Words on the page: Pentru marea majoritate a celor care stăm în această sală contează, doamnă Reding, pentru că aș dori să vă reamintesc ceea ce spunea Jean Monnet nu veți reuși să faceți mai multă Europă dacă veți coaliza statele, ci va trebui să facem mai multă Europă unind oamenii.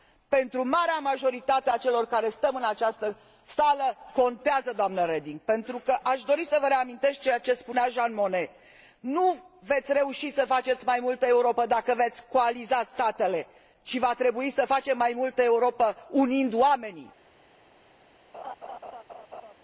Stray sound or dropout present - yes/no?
yes